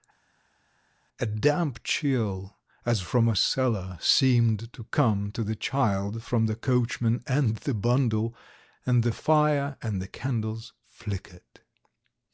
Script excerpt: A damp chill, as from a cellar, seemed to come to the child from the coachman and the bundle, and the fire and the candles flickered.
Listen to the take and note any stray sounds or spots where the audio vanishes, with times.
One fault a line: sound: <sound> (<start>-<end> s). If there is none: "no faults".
no faults